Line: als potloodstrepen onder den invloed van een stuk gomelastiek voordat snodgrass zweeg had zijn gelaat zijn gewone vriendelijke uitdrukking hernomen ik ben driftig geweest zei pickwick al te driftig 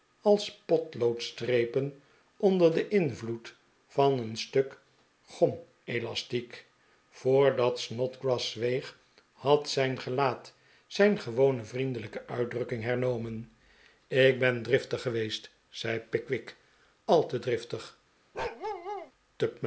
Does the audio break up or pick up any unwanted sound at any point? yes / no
yes